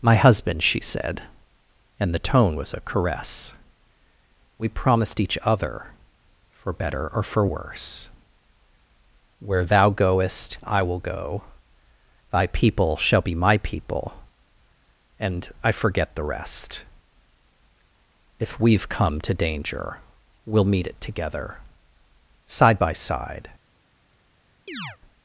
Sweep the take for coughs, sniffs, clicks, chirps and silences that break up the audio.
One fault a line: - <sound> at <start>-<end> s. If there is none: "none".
- chirp at 24.7-25.0 s